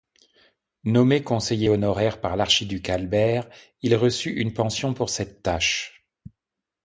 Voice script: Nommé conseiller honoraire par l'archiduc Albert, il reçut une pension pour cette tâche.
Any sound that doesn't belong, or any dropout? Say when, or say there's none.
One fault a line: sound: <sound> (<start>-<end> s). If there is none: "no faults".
no faults